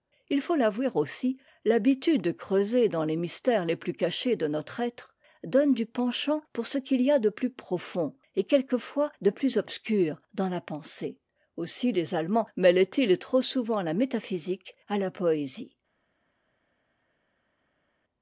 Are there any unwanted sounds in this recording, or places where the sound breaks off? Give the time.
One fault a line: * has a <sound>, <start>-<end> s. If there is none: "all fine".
all fine